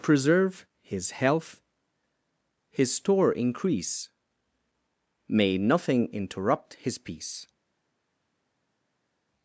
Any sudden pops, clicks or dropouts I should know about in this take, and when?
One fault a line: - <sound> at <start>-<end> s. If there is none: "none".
none